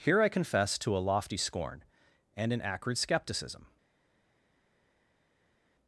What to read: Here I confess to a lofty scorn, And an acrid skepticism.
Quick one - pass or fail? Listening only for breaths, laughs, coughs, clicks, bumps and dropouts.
pass